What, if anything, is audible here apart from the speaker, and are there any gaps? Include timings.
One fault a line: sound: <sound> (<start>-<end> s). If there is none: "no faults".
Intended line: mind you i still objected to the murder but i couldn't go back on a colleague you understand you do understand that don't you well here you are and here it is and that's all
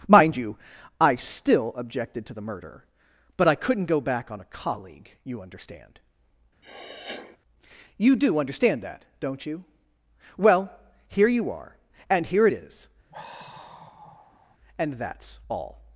sound: sniff (6.6-7.4 s)
sound: sigh (13.1-14.6 s)